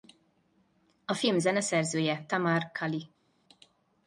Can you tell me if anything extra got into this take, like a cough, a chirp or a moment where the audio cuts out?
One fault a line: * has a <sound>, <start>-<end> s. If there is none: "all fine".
all fine